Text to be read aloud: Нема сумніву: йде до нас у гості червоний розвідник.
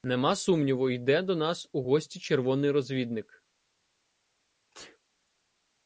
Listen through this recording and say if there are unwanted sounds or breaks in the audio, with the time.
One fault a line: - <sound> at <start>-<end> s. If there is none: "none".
- sneeze at 4.7-5.0 s